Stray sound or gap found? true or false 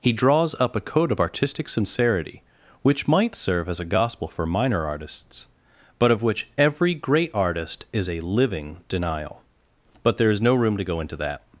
false